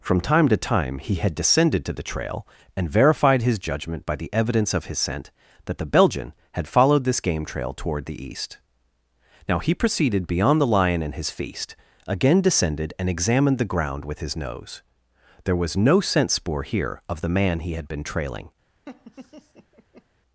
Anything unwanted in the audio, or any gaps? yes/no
yes